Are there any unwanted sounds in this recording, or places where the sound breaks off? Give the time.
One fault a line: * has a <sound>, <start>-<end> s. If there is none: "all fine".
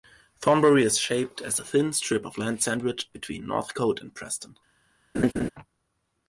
* has a laugh, 5.1-5.5 s